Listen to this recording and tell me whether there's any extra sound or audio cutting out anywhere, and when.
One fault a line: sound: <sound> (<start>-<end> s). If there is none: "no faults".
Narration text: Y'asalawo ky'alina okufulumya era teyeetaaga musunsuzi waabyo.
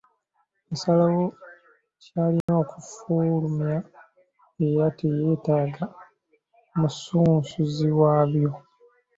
sound: dropout (2.4-2.5 s)